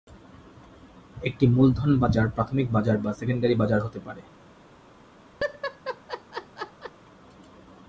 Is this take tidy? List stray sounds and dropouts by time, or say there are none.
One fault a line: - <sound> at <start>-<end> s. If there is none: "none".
- laugh at 5.4-6.9 s